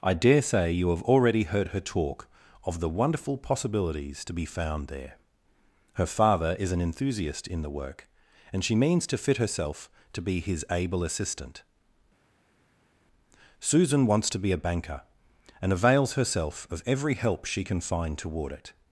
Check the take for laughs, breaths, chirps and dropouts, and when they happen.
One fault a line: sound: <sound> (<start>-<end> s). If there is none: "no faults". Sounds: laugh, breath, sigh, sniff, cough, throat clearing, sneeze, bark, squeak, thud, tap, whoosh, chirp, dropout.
no faults